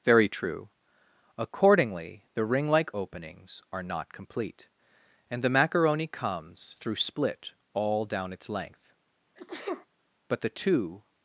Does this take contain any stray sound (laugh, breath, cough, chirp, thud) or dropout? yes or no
yes